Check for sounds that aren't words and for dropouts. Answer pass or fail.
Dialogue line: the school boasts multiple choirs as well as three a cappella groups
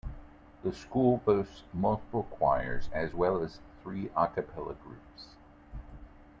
pass